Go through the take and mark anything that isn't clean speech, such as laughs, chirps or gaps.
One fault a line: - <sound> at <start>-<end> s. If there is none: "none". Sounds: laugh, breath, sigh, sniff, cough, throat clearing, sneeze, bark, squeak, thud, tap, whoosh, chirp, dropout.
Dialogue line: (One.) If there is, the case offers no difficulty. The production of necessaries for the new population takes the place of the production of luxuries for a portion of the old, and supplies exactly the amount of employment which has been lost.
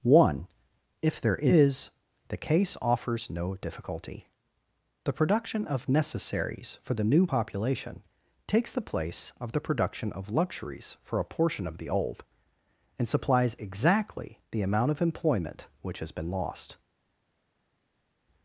none